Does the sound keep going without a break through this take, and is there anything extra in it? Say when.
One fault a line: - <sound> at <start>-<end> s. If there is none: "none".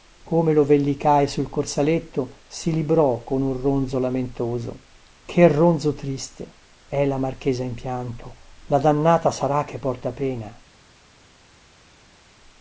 none